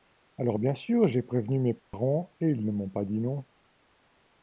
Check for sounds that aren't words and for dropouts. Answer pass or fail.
fail